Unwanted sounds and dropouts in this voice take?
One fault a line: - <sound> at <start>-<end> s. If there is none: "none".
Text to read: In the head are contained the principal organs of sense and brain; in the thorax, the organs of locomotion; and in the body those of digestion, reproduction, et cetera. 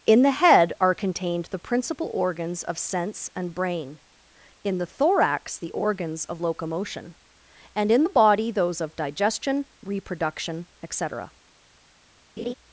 - laugh at 12.4-12.5 s